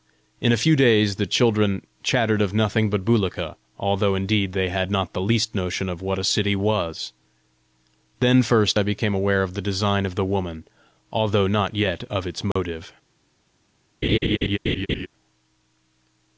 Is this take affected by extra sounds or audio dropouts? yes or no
yes